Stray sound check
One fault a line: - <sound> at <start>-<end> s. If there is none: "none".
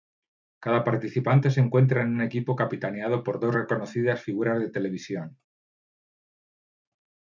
none